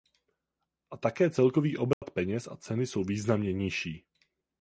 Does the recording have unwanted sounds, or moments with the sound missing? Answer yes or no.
yes